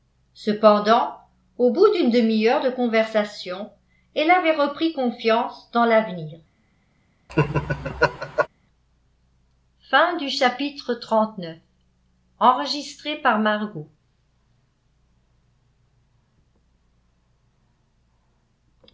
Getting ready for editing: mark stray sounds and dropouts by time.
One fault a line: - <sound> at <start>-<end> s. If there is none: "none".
- laugh at 7.3-8.5 s